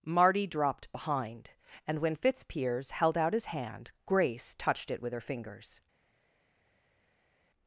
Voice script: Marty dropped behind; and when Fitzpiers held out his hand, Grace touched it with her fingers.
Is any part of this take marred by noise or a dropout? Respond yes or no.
no